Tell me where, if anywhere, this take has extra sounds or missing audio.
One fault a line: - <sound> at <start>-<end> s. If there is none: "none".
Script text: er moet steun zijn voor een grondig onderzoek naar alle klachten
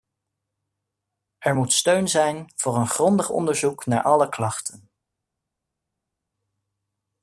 none